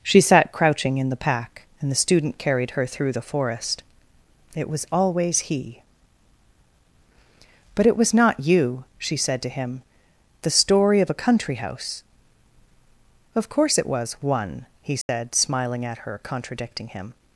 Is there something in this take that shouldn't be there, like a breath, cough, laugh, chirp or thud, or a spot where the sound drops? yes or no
yes